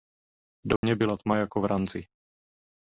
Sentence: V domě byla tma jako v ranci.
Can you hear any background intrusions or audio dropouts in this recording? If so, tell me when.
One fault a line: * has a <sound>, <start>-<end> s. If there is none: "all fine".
* has a dropout, 0.8-0.8 s